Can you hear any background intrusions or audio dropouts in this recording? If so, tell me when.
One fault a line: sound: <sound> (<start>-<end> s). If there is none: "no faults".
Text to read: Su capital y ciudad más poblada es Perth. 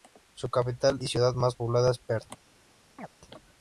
sound: chirp (3.0-3.1 s)